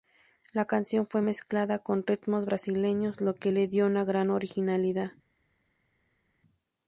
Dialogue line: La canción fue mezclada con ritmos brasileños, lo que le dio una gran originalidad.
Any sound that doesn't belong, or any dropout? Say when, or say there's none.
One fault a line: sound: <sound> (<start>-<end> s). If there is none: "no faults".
no faults